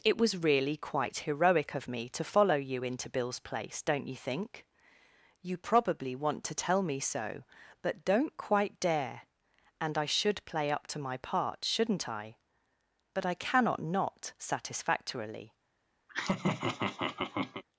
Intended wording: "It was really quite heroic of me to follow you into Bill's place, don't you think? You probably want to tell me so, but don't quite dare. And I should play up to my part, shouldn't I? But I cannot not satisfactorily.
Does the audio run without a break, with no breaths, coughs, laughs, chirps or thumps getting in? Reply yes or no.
no